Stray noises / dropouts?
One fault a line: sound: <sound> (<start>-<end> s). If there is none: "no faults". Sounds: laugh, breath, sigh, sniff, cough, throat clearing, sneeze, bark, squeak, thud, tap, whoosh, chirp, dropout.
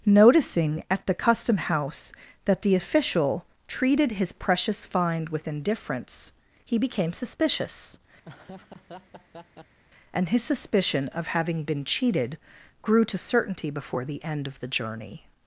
sound: laugh (8.2-9.8 s)